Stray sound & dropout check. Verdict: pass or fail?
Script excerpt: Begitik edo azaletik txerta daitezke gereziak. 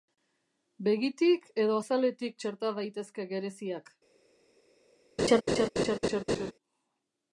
fail